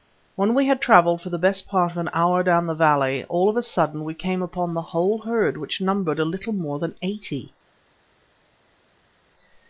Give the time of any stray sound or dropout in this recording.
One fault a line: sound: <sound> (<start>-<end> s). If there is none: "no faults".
no faults